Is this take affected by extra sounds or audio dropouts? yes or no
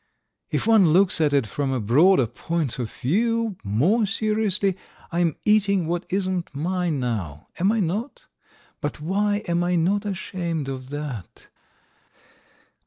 no